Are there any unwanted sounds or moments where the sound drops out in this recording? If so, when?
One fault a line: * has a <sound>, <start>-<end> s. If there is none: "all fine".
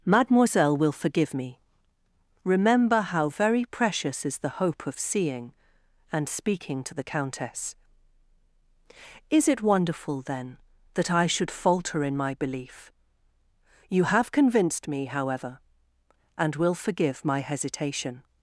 all fine